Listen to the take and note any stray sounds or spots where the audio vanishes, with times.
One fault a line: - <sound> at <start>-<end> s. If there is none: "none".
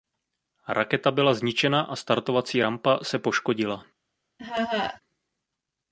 - laugh at 4.4-5.0 s